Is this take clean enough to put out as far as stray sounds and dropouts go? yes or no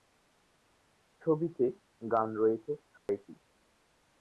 no